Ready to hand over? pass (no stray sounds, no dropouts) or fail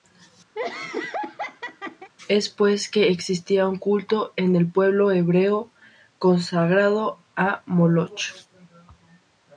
fail